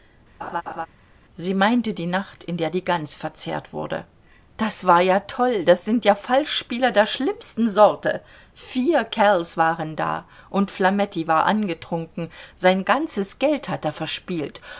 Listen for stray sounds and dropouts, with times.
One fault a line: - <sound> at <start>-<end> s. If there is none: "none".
- laugh at 0.4-0.9 s